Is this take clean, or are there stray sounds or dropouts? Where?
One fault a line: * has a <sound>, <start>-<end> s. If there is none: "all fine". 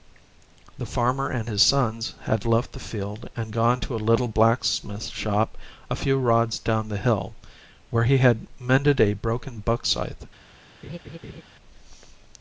* has a laugh, 10.8-11.4 s